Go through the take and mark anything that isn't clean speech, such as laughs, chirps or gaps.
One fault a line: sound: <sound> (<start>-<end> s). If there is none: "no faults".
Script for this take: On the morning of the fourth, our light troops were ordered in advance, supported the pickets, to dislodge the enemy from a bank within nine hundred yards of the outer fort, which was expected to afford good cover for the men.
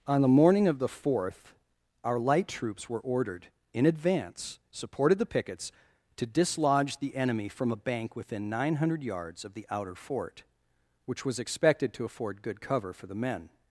no faults